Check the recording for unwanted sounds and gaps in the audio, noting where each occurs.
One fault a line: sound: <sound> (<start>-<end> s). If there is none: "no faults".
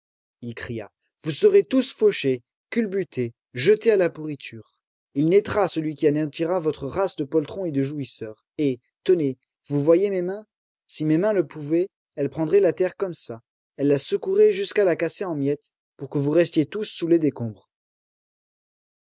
no faults